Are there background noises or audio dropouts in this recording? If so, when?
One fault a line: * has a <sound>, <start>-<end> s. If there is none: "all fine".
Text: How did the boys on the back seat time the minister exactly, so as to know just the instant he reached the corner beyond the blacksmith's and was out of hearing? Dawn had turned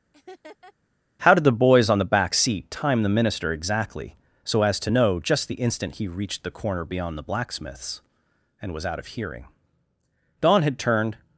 * has a laugh, 0.1-0.7 s